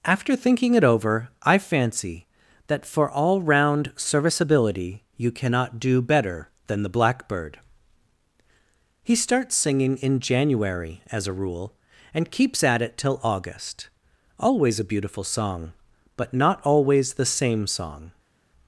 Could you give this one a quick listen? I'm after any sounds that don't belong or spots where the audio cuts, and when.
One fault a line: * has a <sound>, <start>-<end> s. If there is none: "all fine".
all fine